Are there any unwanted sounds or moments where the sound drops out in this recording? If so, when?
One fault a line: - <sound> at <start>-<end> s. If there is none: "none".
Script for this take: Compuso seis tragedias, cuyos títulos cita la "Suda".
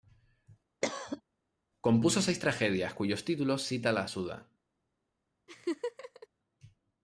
- cough at 0.8-1.2 s
- laugh at 5.5-6.3 s